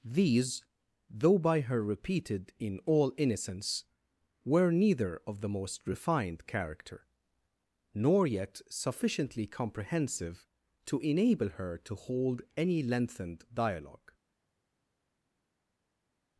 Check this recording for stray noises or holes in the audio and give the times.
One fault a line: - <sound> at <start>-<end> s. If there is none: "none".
none